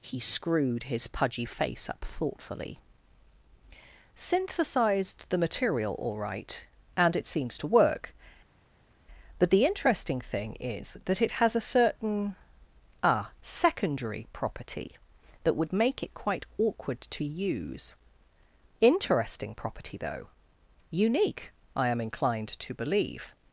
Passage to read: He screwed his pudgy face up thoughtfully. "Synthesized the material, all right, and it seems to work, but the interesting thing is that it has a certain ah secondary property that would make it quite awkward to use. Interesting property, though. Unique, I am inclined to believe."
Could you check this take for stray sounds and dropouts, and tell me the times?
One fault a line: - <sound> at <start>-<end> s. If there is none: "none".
none